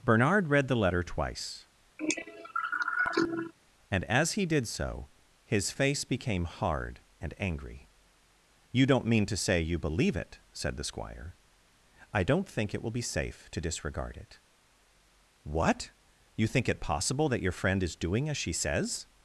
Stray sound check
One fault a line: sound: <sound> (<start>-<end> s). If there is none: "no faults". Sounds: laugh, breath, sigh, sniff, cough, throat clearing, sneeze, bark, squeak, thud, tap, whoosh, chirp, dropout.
sound: cough (2.0-3.5 s)